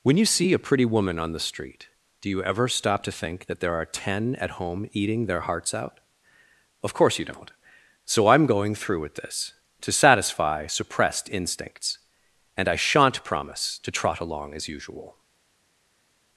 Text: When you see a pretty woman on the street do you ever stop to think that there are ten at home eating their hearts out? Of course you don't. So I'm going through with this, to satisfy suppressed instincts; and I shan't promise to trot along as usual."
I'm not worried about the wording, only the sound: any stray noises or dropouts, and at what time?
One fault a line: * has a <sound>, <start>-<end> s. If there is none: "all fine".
all fine